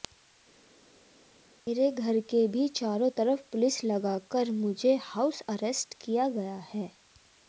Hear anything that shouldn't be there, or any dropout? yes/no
no